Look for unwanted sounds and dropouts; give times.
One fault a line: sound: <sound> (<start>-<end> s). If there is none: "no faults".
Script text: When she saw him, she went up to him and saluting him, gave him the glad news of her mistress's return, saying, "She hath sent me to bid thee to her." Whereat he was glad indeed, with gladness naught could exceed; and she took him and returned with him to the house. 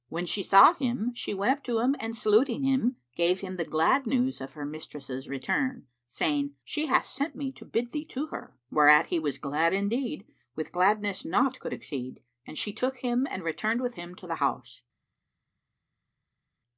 no faults